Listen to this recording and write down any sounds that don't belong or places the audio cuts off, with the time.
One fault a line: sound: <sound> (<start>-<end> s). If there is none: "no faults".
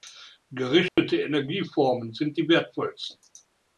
sound: dropout (0.9-1.0 s)